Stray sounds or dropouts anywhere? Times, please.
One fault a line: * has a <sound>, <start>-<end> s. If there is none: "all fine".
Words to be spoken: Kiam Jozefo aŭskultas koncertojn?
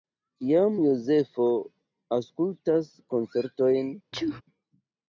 * has a sneeze, 4.1-4.4 s